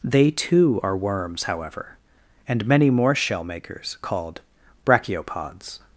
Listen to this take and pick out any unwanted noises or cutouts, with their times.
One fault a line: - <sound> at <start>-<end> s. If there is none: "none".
none